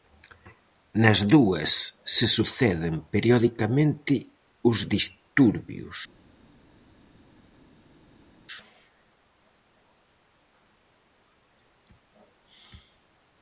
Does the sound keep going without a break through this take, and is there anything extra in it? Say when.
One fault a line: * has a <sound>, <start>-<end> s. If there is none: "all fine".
all fine